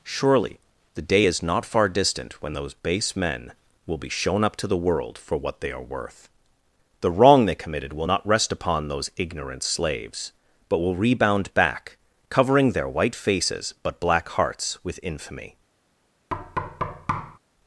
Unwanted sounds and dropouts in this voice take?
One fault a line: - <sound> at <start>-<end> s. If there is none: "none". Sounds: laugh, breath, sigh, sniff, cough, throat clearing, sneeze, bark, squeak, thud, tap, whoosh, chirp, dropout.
- thud at 16.3-17.4 s